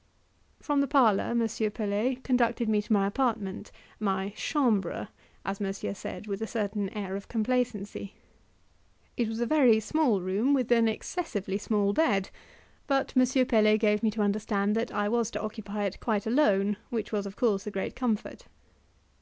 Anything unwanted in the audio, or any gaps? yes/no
no